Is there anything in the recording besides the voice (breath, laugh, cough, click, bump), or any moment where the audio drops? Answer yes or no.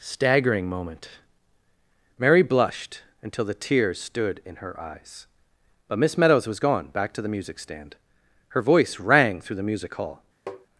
yes